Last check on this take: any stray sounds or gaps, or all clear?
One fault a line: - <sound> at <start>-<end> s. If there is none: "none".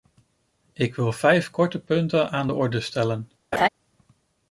- laugh at 3.5-3.7 s